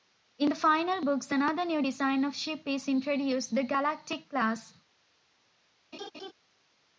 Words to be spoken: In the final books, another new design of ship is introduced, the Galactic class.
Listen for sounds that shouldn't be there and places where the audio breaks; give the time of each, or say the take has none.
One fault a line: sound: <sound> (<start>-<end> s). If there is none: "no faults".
sound: laugh (5.9-6.3 s)